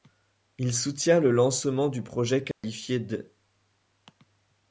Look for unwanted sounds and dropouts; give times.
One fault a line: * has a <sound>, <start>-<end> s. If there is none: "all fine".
* has a dropout, 2.5-2.6 s